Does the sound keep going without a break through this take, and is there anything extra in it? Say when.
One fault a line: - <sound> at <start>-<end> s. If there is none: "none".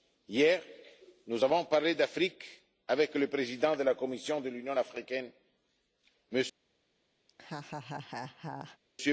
- laugh at 7.3-8.8 s